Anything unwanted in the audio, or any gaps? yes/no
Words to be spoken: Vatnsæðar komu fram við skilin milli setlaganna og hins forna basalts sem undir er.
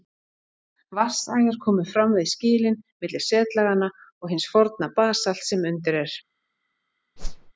yes